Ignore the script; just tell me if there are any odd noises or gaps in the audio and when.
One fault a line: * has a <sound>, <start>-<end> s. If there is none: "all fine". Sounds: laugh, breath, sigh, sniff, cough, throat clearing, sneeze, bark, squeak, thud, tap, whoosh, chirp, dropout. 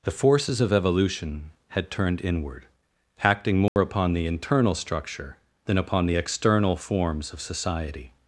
* has a dropout, 3.7-3.8 s